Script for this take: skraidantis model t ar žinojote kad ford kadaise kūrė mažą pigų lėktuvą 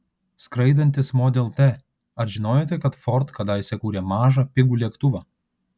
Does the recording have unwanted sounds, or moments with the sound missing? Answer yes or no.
no